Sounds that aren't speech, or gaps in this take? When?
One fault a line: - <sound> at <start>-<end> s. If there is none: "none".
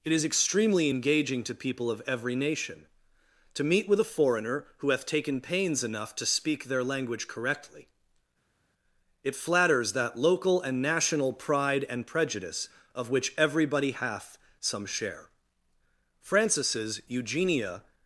none